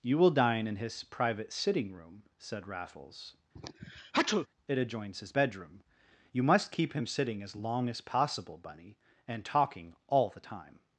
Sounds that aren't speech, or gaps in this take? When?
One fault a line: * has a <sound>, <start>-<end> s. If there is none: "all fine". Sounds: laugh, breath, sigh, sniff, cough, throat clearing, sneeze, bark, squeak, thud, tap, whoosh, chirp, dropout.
* has a sneeze, 3.5-4.5 s